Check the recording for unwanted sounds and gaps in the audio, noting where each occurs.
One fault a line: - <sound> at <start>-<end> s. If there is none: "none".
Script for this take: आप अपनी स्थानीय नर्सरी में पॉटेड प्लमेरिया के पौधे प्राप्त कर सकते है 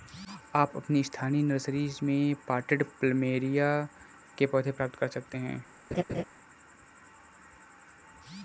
- laugh at 5.9-6.2 s